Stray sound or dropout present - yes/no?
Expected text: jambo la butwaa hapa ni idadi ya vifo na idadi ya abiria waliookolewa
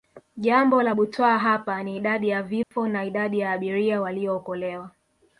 yes